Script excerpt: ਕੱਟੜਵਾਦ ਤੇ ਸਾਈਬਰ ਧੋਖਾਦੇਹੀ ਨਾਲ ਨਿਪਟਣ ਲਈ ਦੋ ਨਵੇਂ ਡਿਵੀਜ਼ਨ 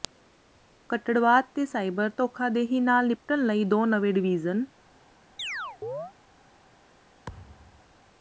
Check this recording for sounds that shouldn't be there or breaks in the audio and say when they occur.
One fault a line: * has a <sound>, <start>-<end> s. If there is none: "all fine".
* has a chirp, 5.4-6.1 s
* has a thud, 7.3-7.9 s